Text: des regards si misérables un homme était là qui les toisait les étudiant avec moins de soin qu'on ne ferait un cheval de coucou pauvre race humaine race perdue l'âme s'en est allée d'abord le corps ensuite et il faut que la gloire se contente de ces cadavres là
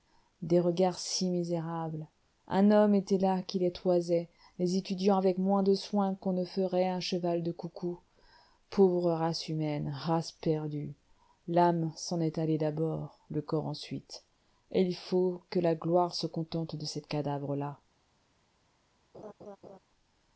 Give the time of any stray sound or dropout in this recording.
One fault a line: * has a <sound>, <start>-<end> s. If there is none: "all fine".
* has a laugh, 19.1-19.8 s